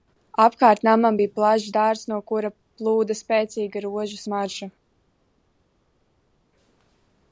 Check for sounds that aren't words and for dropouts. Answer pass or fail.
pass